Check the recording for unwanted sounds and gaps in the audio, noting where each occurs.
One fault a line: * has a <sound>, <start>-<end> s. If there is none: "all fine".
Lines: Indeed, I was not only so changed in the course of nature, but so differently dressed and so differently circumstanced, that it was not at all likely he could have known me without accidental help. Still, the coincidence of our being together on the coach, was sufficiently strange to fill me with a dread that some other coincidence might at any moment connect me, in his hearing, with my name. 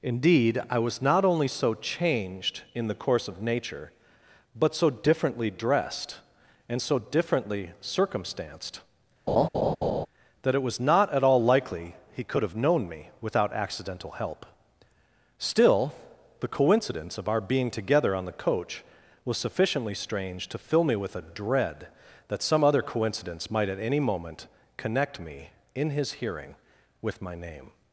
* has a laugh, 9.3-10.1 s